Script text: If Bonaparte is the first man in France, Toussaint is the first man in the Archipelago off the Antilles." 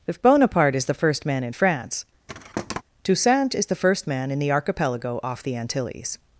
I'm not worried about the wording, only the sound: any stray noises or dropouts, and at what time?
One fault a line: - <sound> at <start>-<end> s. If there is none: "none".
- thud at 2.3-2.8 s